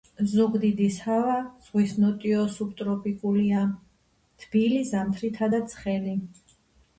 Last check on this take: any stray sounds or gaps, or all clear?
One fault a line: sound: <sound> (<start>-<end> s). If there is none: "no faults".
no faults